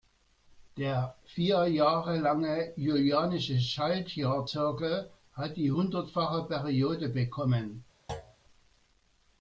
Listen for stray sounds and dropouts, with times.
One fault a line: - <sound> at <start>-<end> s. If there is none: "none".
- thud at 8.1-8.4 s